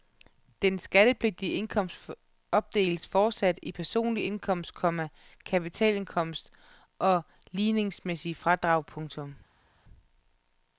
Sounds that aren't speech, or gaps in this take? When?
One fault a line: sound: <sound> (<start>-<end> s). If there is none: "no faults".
no faults